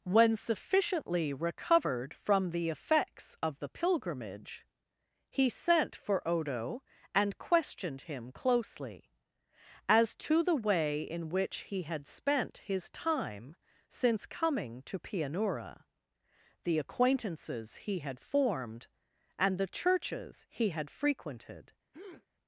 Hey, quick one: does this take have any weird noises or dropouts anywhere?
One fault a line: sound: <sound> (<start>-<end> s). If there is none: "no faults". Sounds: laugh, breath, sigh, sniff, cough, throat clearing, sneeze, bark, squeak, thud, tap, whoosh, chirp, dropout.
sound: breath (21.9-22.3 s)